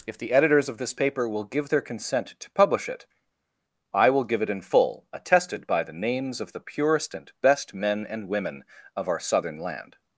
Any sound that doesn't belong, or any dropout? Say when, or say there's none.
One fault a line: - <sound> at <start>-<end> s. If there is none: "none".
none